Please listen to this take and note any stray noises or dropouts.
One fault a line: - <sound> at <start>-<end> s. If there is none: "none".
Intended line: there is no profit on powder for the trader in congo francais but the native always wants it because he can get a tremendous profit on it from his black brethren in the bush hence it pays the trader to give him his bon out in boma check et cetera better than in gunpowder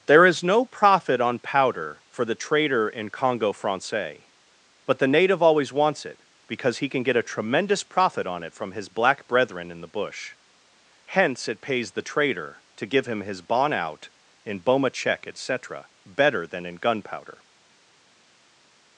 none